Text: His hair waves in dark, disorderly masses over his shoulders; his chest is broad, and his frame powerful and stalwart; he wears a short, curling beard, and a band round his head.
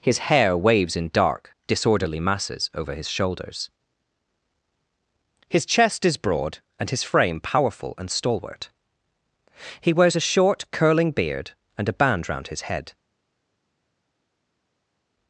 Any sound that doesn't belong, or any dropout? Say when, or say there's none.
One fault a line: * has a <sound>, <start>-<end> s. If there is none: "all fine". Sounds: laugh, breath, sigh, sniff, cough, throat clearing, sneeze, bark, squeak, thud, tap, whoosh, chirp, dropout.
all fine